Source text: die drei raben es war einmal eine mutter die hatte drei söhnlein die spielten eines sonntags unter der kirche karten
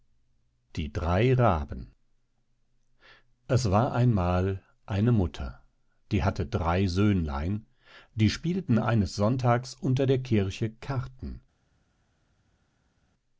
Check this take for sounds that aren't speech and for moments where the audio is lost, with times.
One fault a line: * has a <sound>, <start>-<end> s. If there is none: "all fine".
all fine